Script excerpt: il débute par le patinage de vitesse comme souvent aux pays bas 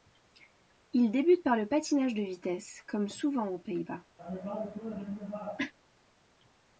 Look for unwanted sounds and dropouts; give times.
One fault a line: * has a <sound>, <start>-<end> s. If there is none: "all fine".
* has a cough, 4.2-5.7 s